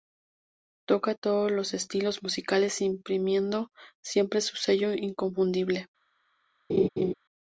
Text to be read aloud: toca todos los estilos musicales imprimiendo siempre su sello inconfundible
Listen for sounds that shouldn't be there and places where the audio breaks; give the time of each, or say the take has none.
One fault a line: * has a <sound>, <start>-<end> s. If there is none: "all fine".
* has a laugh, 6.7-7.1 s